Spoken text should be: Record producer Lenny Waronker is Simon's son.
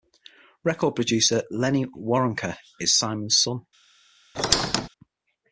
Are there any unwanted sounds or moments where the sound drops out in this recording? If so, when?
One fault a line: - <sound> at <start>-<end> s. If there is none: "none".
- squeak at 4.3-4.9 s